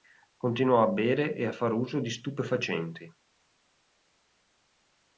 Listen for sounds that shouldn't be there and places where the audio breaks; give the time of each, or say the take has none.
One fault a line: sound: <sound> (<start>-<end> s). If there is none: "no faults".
no faults